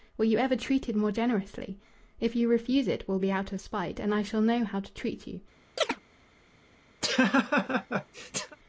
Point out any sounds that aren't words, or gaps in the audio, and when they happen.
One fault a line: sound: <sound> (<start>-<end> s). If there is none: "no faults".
sound: chirp (5.8-6.0 s)
sound: laugh (7.0-8.6 s)